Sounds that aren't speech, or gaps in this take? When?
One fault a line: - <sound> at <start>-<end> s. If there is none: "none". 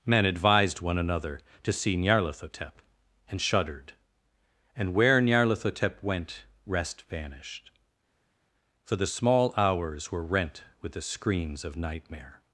none